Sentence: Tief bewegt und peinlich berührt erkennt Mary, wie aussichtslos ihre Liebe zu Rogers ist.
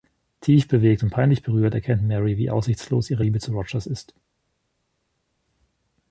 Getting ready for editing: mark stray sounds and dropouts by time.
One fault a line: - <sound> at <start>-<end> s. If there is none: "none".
none